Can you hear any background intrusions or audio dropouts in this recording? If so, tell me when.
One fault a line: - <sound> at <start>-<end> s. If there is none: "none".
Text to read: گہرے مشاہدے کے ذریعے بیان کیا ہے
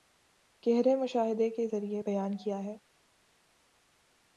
none